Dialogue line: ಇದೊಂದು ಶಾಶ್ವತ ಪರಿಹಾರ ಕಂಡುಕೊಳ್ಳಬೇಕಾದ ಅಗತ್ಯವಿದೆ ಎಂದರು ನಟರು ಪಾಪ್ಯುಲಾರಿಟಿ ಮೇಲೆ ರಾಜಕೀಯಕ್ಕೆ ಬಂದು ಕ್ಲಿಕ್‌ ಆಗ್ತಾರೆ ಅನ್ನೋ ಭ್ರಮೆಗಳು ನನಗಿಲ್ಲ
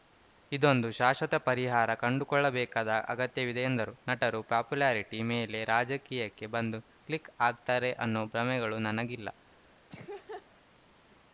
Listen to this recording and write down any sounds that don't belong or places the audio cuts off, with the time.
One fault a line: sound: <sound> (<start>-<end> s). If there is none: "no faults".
sound: laugh (9.9-10.5 s)